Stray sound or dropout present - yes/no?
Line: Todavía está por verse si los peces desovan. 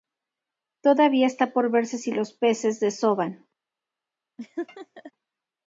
yes